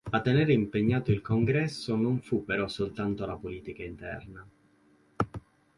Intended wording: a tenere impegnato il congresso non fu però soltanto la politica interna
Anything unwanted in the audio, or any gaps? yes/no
no